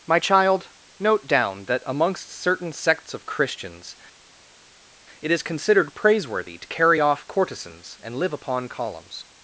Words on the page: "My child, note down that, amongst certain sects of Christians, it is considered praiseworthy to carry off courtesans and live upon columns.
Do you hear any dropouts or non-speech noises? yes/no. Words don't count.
no